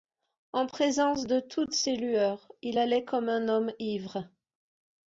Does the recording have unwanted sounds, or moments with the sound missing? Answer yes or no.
no